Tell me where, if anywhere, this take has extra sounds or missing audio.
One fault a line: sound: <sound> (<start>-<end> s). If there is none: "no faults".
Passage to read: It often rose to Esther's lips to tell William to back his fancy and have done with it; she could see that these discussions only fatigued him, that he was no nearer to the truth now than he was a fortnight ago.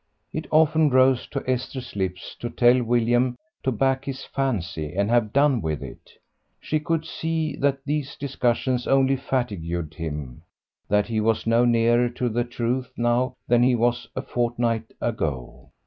no faults